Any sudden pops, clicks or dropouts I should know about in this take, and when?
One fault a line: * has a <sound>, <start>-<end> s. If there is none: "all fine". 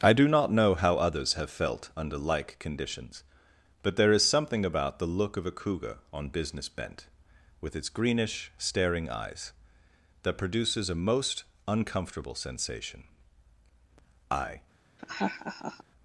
* has a laugh, 15.0-15.8 s